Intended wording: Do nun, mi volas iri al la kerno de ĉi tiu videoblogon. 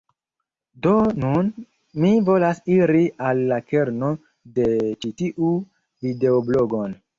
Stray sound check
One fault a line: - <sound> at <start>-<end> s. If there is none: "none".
none